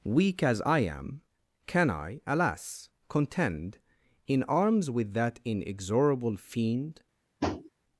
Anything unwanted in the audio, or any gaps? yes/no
yes